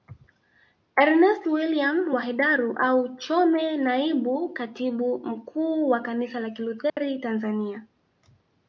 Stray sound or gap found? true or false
true